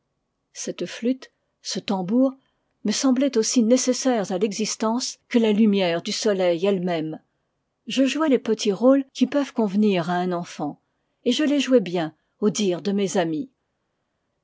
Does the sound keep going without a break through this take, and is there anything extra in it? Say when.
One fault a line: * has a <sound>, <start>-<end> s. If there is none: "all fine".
all fine